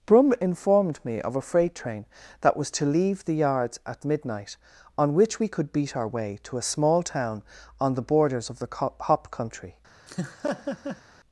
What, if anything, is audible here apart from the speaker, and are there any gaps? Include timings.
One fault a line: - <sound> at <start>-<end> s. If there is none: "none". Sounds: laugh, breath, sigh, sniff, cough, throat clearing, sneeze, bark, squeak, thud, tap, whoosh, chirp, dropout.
- laugh at 10.1-11.0 s